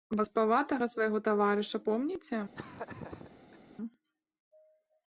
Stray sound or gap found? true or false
true